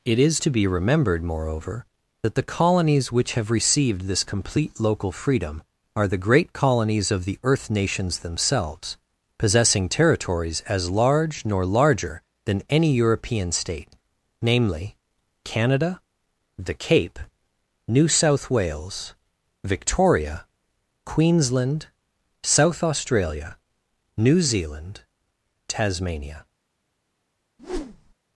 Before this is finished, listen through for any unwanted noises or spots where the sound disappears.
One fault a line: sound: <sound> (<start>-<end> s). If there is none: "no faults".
sound: whoosh (27.6-28.1 s)